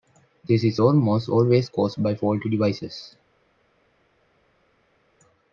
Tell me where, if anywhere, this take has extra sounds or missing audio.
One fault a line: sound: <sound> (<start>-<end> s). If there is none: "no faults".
no faults